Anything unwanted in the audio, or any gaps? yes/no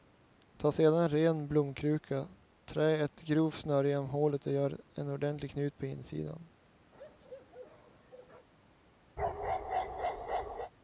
yes